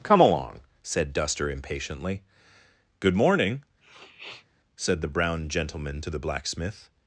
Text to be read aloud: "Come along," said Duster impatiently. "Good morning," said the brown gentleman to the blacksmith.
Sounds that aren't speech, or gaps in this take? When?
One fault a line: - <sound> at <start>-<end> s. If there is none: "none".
- sniff at 3.8-4.5 s